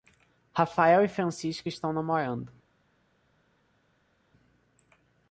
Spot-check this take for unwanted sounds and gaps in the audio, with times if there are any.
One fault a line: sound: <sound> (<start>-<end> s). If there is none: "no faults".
no faults